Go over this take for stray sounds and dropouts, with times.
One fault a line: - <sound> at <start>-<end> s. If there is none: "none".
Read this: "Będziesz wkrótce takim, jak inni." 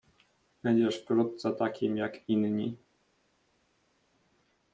none